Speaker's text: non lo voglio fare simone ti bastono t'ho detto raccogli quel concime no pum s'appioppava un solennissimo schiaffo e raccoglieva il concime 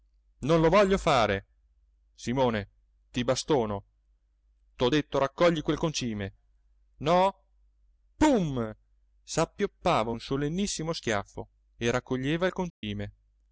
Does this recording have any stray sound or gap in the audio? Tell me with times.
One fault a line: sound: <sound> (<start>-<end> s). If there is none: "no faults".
sound: dropout (12.7-12.8 s)